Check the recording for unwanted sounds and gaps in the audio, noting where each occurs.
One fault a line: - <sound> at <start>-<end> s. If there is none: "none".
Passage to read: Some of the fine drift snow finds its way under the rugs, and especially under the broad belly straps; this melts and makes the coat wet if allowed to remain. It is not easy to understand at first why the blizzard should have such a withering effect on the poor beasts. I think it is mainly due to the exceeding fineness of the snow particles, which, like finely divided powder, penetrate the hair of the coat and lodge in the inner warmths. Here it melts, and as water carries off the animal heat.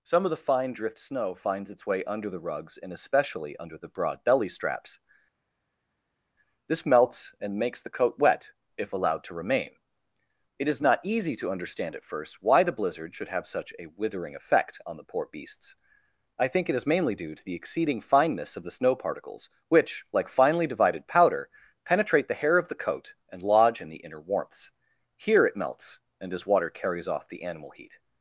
none